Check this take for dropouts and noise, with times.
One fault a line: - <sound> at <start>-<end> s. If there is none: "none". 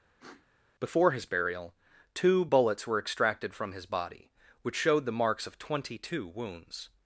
- sniff at 0.2-0.5 s